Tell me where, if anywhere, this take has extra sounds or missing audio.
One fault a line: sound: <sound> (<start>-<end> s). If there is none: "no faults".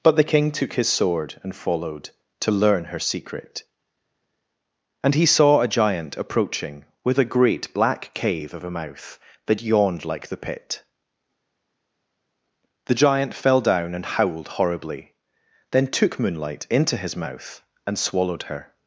no faults